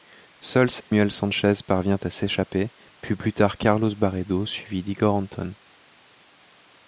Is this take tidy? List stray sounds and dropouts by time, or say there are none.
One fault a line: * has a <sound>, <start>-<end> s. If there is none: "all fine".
* has a dropout, 0.8-0.9 s